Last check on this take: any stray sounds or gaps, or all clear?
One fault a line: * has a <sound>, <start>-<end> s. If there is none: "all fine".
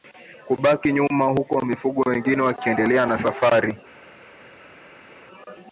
all fine